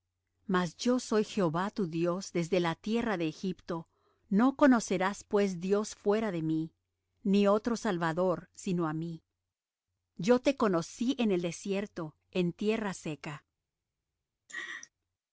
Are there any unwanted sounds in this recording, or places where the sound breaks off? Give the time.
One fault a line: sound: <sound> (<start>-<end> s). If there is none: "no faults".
sound: laugh (14.5-14.9 s)